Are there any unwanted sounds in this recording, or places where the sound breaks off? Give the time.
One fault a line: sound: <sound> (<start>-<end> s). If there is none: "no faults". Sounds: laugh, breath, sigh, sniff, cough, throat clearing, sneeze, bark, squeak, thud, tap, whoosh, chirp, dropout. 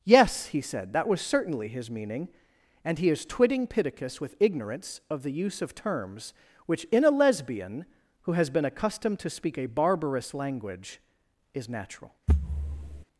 sound: thud (12.3-13.0 s)